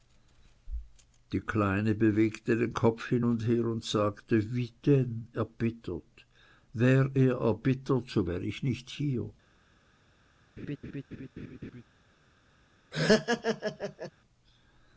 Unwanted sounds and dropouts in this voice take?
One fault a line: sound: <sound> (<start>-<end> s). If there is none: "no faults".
sound: laugh (10.6-11.8 s)
sound: laugh (12.9-14.1 s)